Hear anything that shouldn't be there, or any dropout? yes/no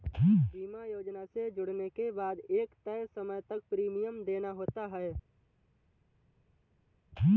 no